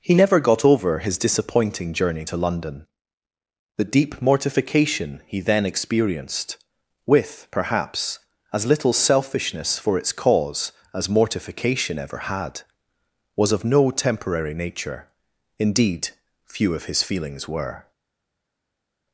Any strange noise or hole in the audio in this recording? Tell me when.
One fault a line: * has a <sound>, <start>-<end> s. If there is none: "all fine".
all fine